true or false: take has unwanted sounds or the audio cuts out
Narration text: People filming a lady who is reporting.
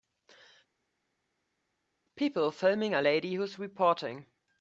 false